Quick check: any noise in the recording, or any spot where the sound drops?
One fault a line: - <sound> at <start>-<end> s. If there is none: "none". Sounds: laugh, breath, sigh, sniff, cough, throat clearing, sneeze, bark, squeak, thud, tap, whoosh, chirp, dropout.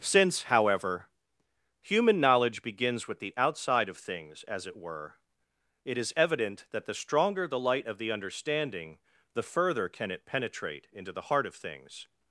none